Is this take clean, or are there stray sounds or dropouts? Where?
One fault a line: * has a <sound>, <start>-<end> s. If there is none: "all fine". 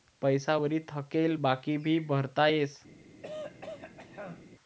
* has a throat clearing, 3.2-4.5 s